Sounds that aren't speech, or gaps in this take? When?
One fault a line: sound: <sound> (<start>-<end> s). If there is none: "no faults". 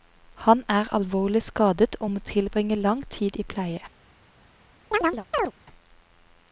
sound: chirp (4.9-5.5 s)